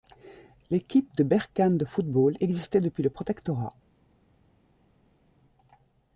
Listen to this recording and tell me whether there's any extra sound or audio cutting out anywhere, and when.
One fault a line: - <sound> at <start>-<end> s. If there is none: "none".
none